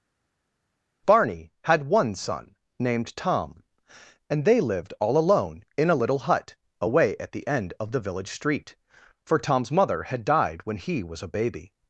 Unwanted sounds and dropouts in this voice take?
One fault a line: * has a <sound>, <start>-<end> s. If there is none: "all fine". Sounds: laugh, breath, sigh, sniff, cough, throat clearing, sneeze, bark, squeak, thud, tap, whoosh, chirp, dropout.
all fine